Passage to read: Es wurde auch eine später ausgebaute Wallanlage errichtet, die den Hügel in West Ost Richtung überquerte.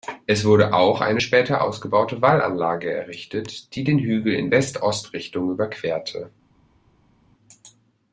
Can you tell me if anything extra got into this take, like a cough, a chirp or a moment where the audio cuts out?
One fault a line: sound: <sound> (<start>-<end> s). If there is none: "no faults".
no faults